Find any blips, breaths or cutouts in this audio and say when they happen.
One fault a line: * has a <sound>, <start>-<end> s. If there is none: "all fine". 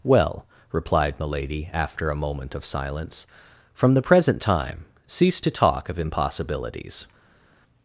all fine